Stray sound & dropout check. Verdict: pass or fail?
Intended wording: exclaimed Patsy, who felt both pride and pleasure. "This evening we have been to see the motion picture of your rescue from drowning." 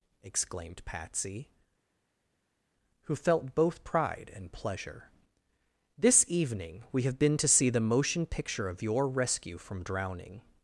pass